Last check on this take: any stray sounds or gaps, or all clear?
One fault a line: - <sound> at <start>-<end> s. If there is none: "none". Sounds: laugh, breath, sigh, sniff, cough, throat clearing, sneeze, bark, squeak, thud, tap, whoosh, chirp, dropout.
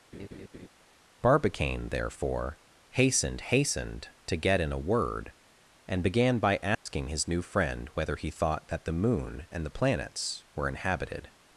- laugh at 0.1-0.7 s
- dropout at 6.7-6.9 s